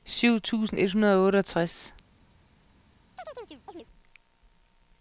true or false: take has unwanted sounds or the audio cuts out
true